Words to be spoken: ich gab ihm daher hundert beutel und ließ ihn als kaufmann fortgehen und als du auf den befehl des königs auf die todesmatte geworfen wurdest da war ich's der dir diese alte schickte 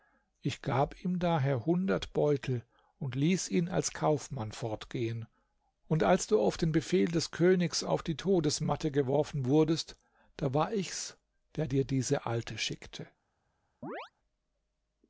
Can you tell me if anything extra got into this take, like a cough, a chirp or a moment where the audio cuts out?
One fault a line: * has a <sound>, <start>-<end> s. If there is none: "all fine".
* has a chirp, 13.8-14.1 s